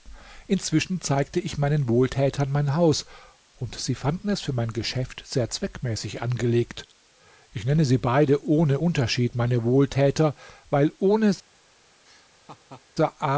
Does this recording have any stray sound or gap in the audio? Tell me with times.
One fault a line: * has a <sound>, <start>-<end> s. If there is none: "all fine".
* has a laugh, 12.0-12.9 s